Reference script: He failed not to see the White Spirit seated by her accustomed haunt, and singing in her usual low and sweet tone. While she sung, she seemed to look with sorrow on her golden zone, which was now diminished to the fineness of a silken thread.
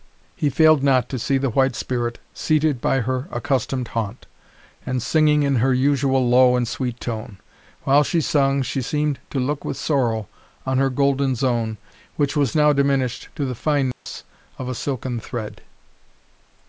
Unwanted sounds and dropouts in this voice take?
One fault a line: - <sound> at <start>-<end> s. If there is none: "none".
- dropout at 13.9-14.1 s